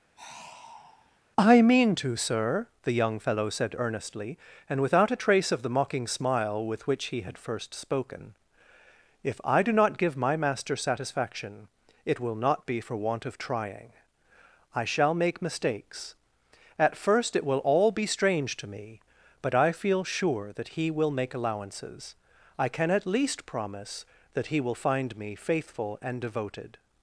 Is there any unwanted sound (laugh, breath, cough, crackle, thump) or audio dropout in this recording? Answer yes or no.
yes